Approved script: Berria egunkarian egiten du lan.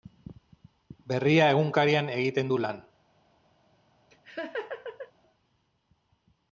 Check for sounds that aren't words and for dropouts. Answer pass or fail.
fail